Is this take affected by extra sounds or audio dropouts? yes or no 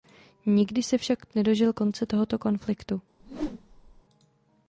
yes